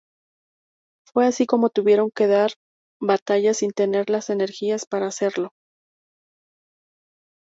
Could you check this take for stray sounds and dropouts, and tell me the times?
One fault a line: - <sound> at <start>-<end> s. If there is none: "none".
none